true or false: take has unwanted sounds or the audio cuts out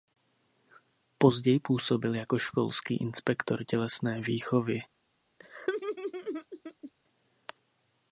true